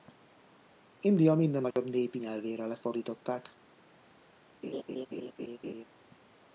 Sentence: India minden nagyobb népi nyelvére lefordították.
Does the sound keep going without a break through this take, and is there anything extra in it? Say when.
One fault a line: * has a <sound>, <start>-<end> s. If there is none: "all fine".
* has a dropout, 1.7-1.8 s
* has a laugh, 4.6-5.8 s